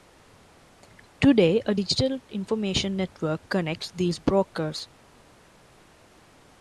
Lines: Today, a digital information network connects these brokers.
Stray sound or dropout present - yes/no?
no